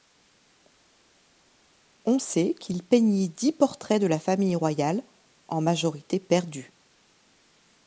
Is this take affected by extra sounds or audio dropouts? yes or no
no